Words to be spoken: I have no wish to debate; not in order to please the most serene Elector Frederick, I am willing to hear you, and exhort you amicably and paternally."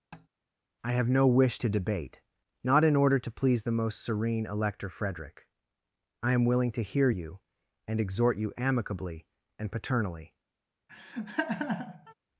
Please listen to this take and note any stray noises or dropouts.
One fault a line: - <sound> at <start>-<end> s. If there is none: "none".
- tap at 0.1-0.3 s
- laugh at 10.9-12.1 s